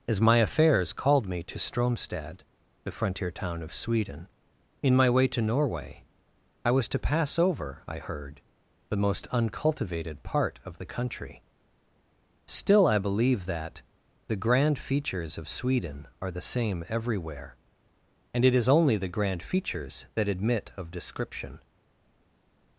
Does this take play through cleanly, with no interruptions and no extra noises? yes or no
yes